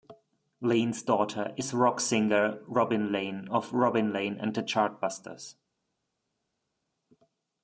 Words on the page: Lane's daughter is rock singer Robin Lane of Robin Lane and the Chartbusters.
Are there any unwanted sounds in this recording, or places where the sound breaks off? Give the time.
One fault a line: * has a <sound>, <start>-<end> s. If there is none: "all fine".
all fine